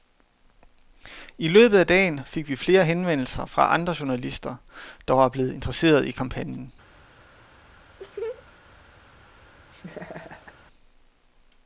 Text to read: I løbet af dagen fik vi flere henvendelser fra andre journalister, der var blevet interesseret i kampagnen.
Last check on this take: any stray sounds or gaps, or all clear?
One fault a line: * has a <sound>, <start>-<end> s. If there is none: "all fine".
* has a laugh, 8.0-8.5 s
* has a laugh, 9.7-10.6 s